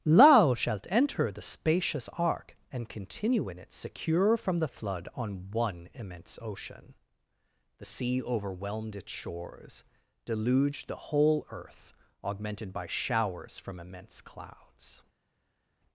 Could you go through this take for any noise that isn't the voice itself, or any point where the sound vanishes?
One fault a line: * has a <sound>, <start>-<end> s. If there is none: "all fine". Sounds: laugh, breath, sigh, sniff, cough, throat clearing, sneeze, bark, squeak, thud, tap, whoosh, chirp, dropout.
all fine